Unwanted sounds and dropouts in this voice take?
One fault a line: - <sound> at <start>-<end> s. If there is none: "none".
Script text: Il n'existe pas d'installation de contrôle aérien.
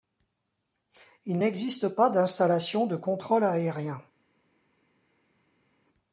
none